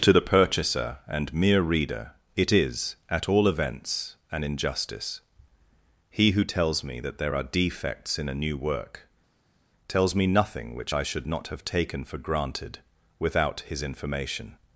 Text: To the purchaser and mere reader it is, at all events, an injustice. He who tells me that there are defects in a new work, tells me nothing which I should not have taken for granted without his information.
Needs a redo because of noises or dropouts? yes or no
no